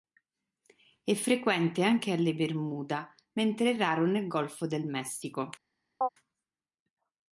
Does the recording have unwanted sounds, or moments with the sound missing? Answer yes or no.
yes